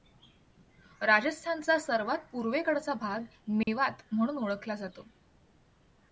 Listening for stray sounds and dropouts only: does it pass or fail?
fail